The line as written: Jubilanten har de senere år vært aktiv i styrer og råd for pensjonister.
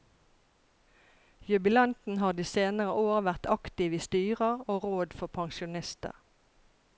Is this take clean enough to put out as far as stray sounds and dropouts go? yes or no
yes